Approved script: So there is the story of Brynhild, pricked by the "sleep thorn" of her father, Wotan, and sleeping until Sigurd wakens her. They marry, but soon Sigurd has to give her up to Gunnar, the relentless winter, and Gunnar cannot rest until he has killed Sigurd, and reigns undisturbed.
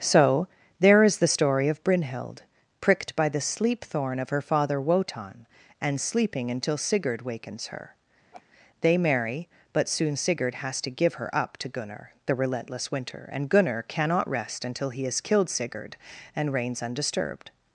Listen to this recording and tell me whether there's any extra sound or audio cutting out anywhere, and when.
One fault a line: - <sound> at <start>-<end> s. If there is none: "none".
- laugh at 8.3-8.4 s